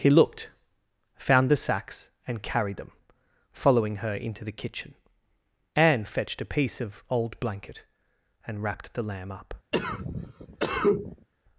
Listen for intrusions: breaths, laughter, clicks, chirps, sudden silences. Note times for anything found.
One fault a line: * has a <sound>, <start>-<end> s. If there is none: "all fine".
* has a cough, 9.7-11.3 s